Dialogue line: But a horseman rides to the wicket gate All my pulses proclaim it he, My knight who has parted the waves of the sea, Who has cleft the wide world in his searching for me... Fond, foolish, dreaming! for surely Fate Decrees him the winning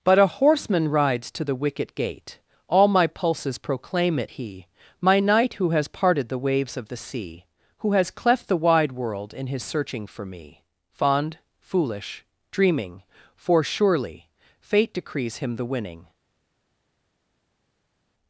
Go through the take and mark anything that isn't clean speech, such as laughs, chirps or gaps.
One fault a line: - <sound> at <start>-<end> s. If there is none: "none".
none